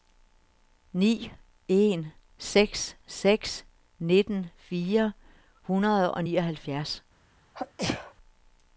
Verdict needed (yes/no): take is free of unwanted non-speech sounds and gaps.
no